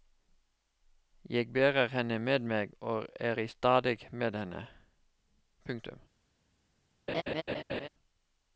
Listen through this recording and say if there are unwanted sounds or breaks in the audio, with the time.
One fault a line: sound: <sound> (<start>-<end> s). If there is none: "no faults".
sound: laugh (7.1-7.9 s)